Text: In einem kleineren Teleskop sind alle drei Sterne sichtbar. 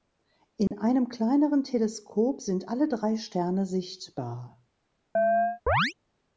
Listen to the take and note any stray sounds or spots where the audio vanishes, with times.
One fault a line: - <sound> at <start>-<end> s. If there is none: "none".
- dropout at 0.7-0.7 s
- chirp at 5.2-5.9 s